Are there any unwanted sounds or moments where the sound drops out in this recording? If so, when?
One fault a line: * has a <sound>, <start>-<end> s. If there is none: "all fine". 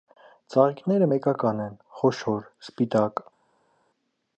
all fine